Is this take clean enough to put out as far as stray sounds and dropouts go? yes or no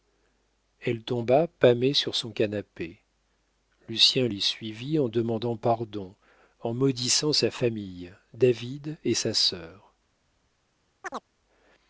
no